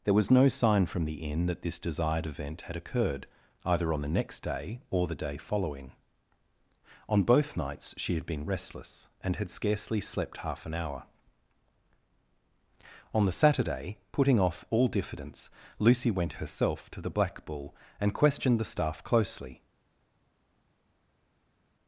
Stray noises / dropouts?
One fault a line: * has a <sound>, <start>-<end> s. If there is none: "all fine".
all fine